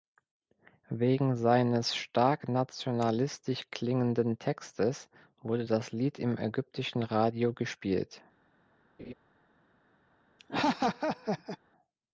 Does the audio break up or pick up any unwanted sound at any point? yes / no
yes